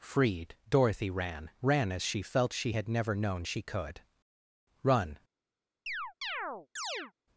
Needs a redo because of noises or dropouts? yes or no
yes